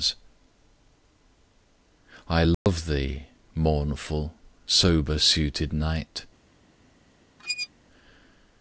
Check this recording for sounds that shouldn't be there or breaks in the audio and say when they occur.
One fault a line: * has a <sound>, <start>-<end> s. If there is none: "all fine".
* has a dropout, 2.5-2.7 s
* has a squeak, 7.4-7.7 s